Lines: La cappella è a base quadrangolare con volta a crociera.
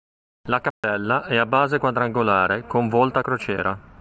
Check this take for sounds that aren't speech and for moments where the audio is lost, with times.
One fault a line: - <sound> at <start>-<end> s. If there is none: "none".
- dropout at 0.7-0.8 s